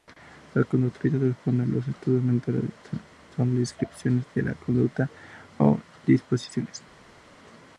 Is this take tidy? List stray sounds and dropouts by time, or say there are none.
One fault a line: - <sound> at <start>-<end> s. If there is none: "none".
none